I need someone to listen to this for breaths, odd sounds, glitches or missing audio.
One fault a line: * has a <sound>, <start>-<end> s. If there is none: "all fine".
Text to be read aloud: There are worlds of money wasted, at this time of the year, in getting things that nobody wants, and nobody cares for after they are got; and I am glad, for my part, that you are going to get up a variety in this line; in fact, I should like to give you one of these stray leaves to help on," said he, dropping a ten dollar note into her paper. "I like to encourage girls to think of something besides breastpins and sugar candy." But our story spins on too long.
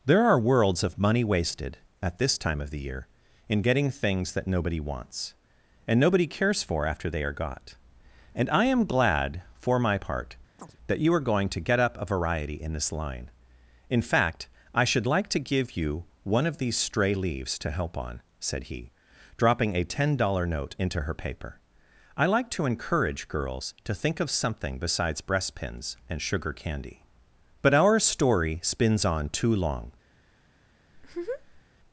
* has a chirp, 10.6-10.8 s
* has a laugh, 30.9-31.6 s